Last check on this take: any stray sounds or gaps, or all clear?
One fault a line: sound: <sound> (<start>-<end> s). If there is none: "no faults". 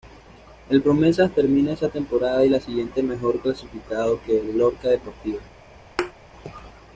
sound: thud (6.0-6.1 s)